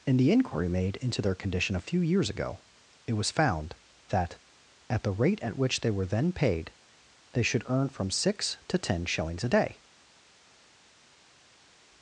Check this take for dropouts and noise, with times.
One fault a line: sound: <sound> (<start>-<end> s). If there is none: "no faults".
no faults